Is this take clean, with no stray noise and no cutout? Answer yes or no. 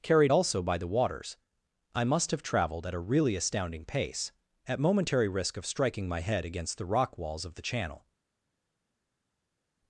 yes